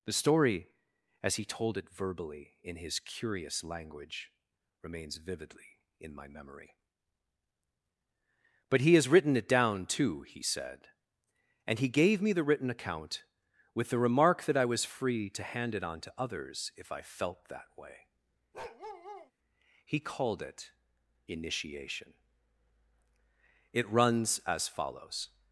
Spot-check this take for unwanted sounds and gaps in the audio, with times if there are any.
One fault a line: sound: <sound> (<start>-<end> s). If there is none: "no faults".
sound: bark (18.5-19.3 s)